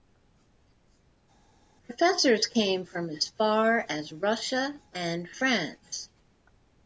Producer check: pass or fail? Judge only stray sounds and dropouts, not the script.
pass